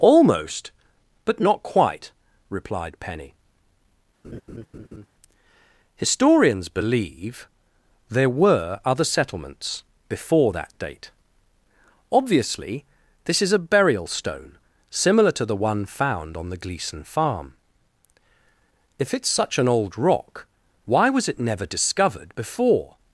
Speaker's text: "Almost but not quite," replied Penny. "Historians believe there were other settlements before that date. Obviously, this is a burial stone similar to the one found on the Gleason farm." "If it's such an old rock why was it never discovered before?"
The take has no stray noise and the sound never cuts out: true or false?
false